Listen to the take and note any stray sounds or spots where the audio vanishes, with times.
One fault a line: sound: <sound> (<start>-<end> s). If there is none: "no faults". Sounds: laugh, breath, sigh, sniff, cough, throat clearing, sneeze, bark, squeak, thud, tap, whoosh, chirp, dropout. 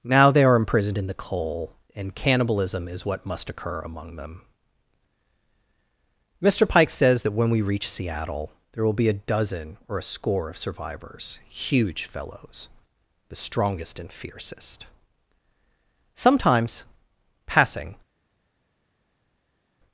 no faults